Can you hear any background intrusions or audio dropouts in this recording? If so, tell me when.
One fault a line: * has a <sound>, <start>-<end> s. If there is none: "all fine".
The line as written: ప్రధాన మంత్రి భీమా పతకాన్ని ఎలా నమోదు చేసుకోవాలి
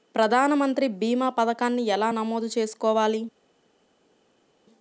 all fine